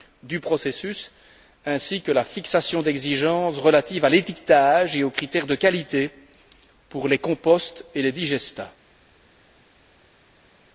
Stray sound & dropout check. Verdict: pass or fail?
pass